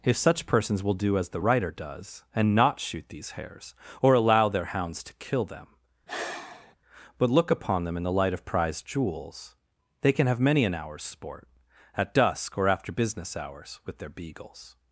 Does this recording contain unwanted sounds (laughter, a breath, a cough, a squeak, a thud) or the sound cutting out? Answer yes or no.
yes